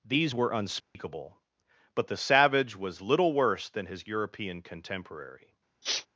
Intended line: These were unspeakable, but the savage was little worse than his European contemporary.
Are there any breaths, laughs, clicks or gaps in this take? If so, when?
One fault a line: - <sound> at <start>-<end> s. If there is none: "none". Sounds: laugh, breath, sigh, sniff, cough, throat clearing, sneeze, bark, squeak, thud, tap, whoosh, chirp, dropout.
- dropout at 0.8-1.0 s
- sniff at 5.8-6.1 s